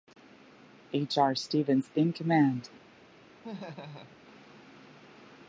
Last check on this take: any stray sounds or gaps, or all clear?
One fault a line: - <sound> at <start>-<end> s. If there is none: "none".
- laugh at 3.4-4.2 s